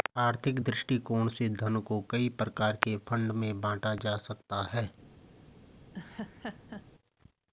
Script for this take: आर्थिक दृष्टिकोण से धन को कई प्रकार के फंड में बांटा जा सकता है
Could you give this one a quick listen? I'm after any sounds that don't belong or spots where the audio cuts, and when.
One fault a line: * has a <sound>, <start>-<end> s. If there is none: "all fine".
* has a laugh, 5.9-6.9 s